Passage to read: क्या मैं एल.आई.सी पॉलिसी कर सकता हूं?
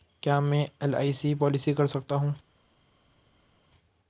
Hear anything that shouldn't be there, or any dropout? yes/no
no